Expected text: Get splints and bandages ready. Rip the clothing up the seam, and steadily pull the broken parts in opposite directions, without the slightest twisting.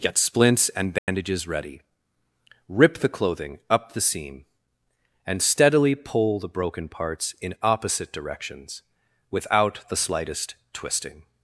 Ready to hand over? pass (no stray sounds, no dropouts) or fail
fail